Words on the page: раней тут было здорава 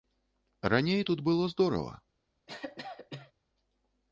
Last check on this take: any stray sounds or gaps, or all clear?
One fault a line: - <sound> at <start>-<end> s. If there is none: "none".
- cough at 2.5-3.3 s